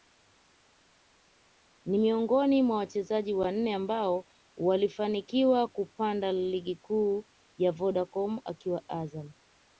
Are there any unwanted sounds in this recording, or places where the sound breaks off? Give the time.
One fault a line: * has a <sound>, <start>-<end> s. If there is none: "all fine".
all fine